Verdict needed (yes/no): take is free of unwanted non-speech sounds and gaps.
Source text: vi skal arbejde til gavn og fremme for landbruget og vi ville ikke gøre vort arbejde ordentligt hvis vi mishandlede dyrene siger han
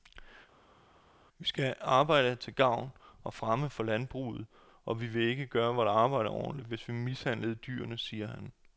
yes